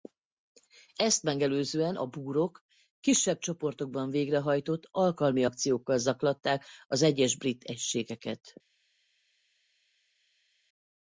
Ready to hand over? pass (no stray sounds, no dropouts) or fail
pass